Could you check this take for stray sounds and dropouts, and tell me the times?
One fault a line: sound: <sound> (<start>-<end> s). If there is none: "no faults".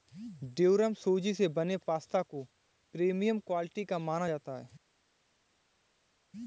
no faults